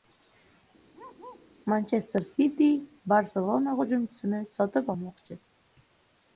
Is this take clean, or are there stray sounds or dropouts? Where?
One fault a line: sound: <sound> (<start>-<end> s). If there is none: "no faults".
sound: bark (0.9-1.5 s)